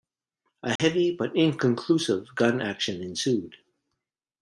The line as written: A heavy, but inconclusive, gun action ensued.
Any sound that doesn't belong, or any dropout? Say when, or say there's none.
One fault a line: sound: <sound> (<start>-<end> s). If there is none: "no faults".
sound: dropout (0.8-0.8 s)